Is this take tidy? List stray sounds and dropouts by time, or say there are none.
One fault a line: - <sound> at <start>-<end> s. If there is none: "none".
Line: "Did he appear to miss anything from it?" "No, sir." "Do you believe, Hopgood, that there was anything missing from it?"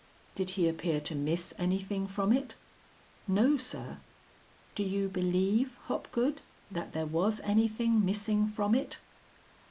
none